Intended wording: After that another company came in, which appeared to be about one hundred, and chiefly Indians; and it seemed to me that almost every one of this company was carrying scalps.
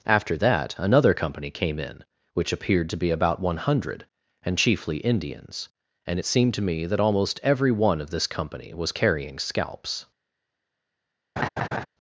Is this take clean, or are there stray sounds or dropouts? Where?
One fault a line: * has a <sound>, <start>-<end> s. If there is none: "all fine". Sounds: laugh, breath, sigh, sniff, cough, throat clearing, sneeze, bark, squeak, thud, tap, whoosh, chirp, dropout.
* has a laugh, 11.4-11.9 s